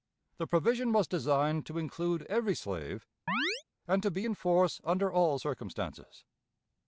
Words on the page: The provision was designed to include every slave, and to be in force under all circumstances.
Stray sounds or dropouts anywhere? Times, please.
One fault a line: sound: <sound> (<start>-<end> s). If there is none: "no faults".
sound: chirp (3.3-3.6 s)